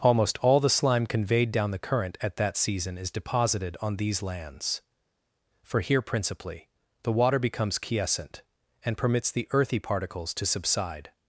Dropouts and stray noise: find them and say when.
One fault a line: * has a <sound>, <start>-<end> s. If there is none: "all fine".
all fine